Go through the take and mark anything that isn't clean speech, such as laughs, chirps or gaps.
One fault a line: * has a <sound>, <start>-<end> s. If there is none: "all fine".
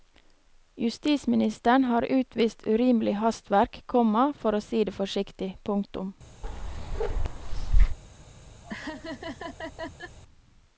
* has a bark, 6.4-8.0 s
* has a laugh, 8.6-10.2 s